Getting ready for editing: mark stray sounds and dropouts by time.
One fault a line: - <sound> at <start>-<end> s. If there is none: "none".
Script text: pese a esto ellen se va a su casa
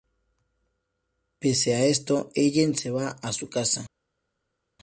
none